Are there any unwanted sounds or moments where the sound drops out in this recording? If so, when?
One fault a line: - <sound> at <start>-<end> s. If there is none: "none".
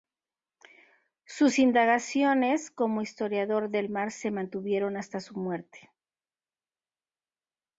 none